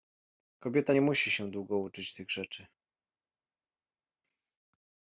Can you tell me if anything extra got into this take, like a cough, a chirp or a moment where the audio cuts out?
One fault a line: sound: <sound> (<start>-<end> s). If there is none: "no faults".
no faults